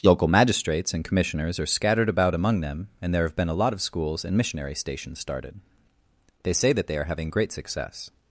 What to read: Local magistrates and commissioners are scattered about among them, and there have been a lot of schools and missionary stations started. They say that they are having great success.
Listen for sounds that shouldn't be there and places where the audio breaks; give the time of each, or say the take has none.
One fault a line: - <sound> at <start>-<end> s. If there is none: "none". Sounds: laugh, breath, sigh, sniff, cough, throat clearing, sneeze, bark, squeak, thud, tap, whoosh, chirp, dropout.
none